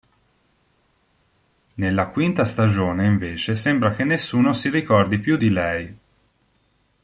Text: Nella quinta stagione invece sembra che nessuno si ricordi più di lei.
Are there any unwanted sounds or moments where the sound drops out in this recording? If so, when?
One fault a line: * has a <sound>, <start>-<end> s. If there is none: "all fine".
all fine